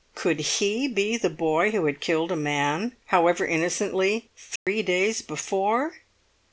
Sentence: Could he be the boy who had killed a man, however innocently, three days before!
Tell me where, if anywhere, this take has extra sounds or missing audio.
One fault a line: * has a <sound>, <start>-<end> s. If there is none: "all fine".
* has a dropout, 4.6-4.7 s